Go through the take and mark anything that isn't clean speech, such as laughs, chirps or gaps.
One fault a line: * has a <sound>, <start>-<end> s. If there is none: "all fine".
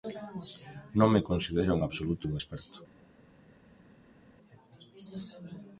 all fine